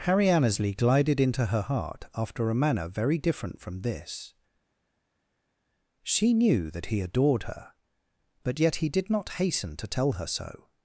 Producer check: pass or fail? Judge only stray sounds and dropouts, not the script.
pass